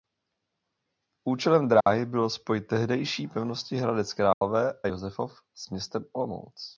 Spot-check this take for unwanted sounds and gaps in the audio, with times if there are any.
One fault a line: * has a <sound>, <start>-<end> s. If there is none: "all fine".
* has a dropout, 1.8-1.9 s
* has a dropout, 4.3-4.4 s